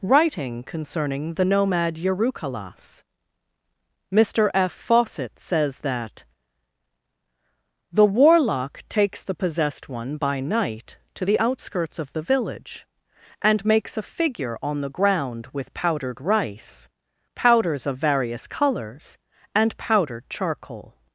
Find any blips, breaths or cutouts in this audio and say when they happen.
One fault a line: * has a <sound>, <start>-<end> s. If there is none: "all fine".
all fine